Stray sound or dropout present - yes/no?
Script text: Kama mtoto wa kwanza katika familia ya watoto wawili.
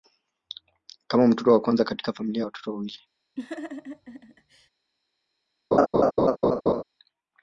yes